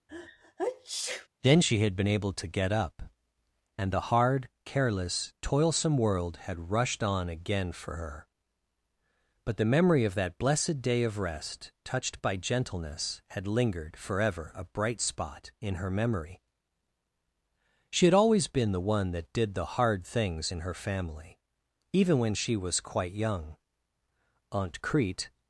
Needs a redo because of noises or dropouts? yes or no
yes